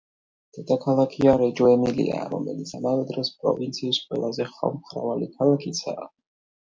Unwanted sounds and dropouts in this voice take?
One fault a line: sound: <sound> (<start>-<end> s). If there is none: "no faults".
no faults